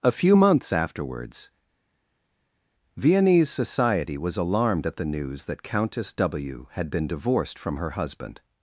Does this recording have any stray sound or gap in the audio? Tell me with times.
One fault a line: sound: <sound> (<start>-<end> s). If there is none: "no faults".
no faults